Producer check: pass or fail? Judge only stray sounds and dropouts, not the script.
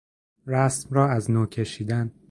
pass